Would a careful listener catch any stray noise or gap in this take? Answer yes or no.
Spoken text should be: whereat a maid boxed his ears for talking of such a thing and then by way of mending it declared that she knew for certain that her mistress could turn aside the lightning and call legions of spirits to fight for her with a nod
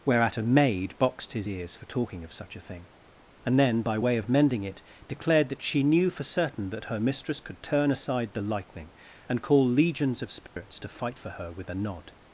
yes